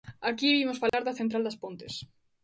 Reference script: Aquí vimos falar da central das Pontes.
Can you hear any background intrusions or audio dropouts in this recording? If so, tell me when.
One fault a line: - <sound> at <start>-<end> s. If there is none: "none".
- dropout at 0.9-0.9 s